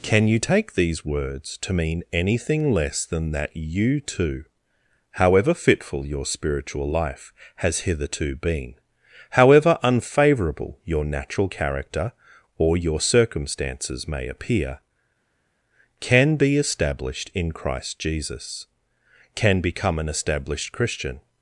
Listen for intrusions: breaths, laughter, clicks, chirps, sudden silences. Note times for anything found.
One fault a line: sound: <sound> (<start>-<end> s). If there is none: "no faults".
no faults